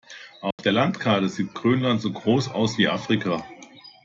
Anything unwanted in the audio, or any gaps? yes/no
yes